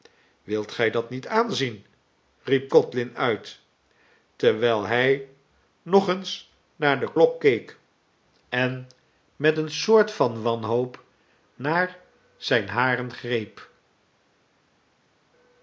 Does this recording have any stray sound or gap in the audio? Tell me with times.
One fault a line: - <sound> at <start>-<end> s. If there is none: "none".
none